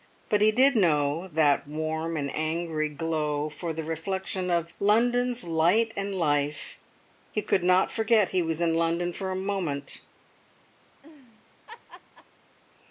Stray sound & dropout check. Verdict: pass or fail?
fail